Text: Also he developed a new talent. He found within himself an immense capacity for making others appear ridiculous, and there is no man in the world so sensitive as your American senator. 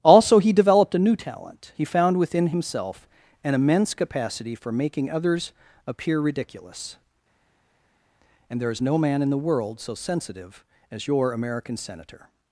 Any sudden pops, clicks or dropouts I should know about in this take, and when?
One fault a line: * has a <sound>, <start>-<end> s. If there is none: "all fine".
all fine